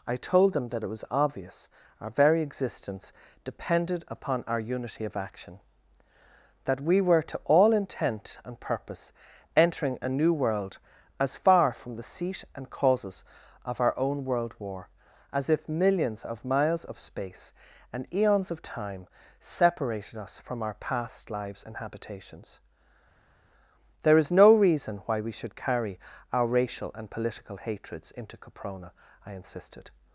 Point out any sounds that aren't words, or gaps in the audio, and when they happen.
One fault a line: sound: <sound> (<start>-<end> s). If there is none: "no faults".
no faults